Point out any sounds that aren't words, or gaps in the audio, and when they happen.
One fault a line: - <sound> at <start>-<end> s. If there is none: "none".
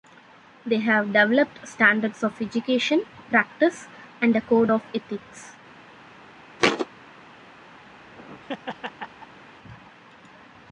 - thud at 6.6-6.9 s
- laugh at 7.9-9.4 s